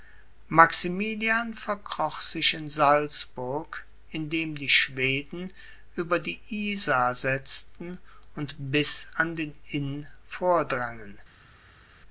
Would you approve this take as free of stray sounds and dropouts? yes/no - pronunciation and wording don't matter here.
yes